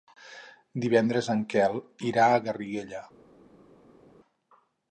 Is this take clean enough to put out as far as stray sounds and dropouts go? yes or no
yes